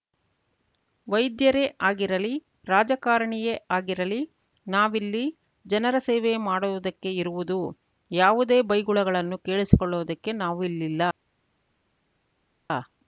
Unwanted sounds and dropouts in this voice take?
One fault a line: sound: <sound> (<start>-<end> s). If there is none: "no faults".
no faults